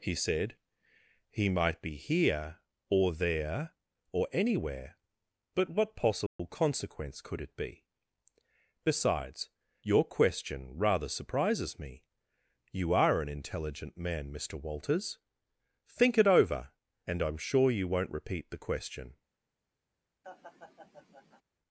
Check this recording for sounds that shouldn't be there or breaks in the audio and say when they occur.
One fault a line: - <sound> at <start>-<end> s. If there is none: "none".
- dropout at 6.3-6.4 s
- laugh at 20.2-21.4 s